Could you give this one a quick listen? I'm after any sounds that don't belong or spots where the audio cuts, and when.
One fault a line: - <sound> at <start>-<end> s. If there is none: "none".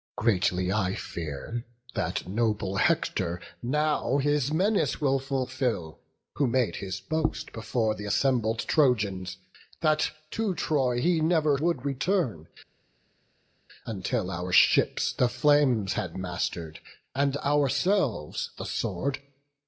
none